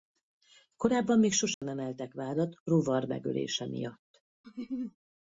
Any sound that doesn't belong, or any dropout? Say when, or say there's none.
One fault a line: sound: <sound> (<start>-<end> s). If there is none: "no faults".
sound: dropout (1.5-1.6 s)
sound: laugh (4.4-5.0 s)